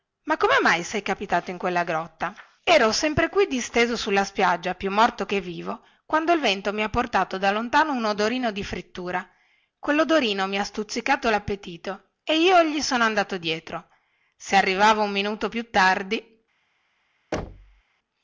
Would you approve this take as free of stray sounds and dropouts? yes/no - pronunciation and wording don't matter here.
no